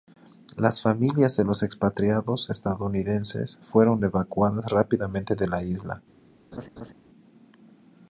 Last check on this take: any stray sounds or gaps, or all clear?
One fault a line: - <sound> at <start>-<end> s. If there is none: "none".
- laugh at 6.5-6.9 s